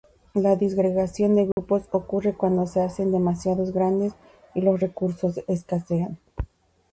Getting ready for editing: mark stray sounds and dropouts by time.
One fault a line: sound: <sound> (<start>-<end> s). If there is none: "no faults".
sound: dropout (1.5-1.6 s)